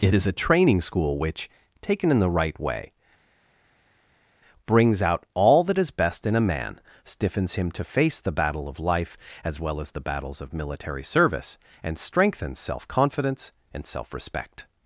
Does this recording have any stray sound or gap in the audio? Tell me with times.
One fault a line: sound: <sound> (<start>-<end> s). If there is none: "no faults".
no faults